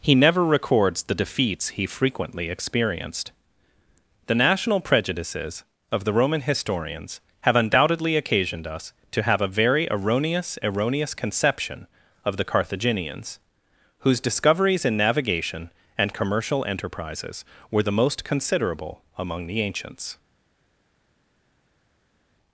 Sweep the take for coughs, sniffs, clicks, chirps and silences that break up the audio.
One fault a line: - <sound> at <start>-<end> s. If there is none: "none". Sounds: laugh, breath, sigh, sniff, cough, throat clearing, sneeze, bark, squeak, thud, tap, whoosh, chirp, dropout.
none